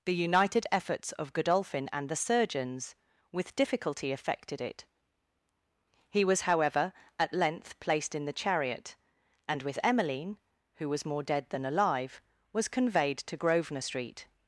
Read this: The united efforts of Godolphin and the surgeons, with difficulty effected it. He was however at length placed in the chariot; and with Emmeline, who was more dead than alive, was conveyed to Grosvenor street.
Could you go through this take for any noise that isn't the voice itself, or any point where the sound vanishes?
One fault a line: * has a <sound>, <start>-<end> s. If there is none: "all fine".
all fine